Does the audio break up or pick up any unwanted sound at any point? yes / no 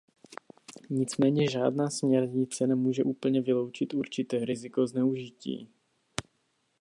no